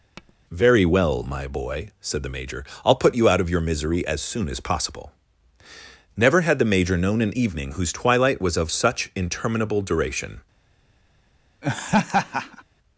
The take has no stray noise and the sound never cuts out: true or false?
false